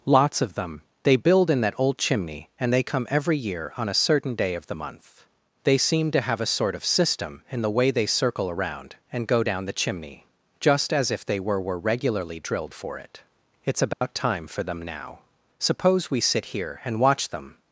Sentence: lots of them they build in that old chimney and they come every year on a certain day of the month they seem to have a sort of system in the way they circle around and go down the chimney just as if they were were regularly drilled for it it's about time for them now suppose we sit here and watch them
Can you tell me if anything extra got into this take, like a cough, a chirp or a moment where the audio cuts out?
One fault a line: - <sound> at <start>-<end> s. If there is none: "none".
- dropout at 13.9-14.0 s